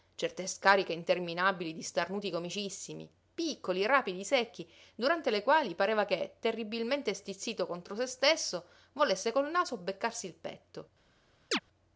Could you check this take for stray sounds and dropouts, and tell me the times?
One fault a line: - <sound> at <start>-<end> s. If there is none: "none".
- chirp at 11.5-11.6 s